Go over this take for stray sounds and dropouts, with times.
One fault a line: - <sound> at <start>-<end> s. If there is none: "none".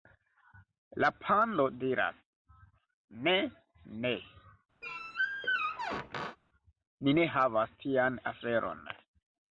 - squeak at 4.8-6.4 s